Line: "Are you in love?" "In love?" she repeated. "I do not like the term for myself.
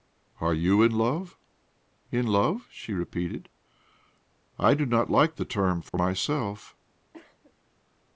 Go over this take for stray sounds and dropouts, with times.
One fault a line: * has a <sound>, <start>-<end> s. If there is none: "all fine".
* has a dropout, 5.9-5.9 s
* has a cough, 7.1-7.5 s